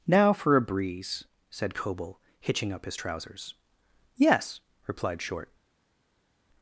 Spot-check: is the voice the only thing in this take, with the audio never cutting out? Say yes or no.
yes